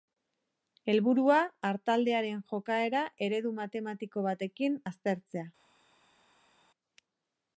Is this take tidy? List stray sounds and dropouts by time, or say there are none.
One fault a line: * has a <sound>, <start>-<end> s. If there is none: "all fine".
all fine